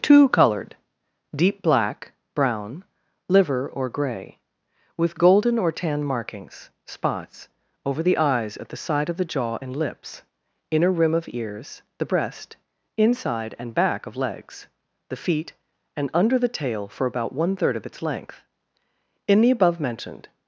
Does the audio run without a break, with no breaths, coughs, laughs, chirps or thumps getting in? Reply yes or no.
yes